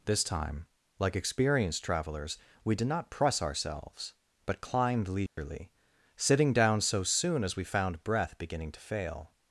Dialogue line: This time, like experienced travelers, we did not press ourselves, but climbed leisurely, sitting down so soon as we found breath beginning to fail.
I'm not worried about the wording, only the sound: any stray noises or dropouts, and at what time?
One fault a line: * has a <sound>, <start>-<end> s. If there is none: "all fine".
* has a dropout, 5.3-5.4 s